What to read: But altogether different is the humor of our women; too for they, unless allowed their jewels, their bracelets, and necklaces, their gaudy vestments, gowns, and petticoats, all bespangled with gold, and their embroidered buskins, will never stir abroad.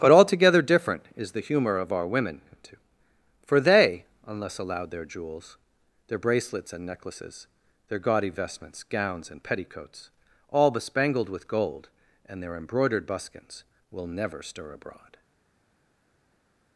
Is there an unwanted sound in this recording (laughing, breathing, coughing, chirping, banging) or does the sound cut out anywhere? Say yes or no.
no